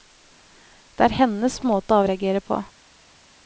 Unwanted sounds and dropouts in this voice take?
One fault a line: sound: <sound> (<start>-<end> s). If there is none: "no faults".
no faults